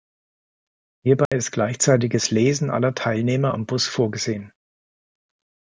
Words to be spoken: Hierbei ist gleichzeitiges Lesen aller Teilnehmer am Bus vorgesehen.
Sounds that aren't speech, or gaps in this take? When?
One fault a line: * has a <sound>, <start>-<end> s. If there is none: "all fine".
* has a dropout, 1.3-1.3 s